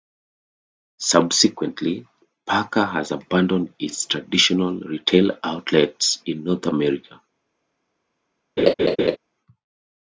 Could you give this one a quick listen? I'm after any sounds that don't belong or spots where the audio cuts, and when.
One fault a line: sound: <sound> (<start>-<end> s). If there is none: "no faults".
sound: laugh (8.6-9.2 s)